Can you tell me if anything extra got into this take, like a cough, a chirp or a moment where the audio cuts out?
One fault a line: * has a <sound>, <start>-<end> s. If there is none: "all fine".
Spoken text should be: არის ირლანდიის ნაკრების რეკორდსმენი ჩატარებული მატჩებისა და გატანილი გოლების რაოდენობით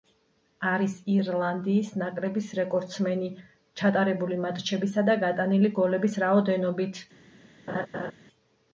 * has a laugh, 7.7-8.1 s